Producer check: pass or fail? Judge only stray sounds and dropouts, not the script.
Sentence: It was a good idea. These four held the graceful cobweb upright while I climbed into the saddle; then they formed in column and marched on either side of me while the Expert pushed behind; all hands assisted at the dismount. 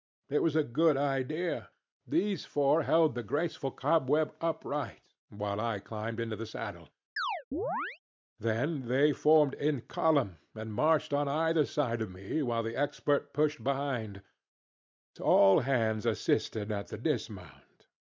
fail